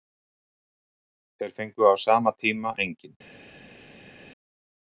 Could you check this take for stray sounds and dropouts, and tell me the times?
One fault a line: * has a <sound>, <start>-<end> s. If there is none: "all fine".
all fine